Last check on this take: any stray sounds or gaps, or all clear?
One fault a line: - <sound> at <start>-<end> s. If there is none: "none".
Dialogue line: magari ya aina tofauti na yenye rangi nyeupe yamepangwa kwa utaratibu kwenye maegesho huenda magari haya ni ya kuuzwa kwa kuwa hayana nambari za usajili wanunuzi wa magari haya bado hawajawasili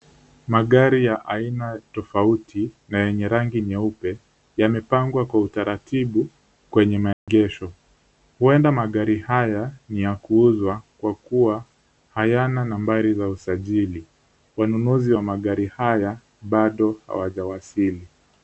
- dropout at 7.1-7.3 s